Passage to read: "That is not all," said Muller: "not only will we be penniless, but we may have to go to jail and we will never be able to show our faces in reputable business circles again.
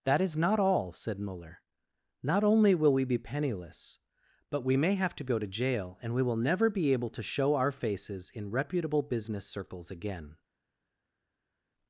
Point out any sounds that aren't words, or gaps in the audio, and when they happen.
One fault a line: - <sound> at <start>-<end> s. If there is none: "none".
none